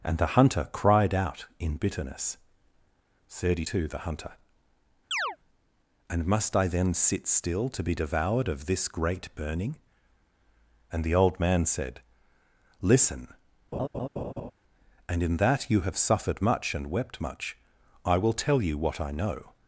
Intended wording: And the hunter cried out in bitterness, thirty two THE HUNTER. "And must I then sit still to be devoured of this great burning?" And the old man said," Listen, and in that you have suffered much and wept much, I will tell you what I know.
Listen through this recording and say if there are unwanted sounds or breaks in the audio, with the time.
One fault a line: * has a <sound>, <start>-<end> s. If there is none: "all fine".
* has a chirp, 5.1-5.4 s
* has a laugh, 13.7-14.5 s